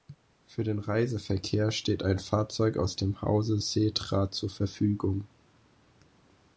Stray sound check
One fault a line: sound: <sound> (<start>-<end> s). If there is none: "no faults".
no faults